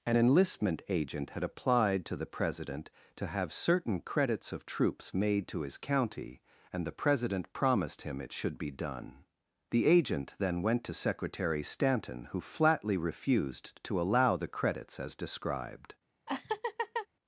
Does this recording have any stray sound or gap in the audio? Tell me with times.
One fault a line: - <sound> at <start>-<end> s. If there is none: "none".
- laugh at 16.3-17.1 s